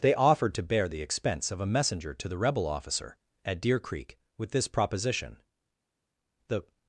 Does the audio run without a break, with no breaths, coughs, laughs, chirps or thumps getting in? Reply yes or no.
yes